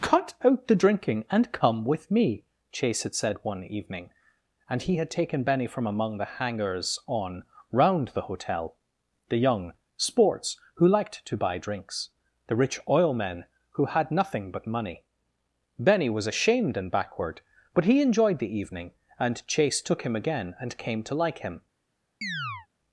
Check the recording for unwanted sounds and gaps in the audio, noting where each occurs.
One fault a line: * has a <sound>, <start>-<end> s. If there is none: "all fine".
* has a chirp, 22.2-22.7 s